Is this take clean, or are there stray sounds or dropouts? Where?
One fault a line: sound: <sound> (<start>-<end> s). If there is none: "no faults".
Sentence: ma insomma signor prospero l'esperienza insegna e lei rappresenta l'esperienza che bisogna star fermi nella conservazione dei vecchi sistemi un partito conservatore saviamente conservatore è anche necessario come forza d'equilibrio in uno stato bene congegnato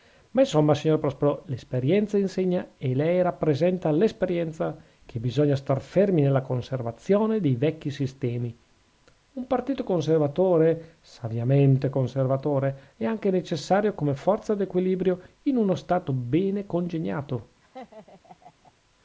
sound: laugh (17.6-18.7 s)